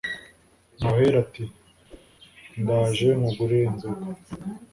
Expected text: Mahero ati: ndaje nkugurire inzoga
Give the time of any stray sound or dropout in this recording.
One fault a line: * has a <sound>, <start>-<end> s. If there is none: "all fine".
* has a whoosh, 1.9-2.1 s